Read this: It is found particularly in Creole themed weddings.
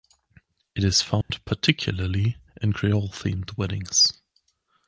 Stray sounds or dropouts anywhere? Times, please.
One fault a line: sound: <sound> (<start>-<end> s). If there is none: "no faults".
sound: dropout (1.2-1.3 s)